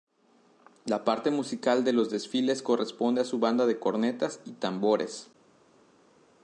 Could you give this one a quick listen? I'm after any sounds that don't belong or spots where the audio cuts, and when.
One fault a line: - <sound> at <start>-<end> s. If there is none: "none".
none